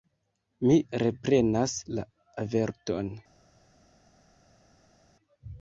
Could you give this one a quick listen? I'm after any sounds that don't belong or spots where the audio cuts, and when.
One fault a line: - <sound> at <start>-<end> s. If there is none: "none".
none